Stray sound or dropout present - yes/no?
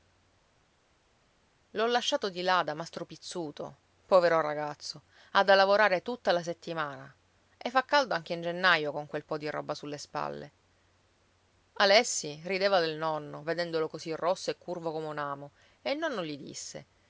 no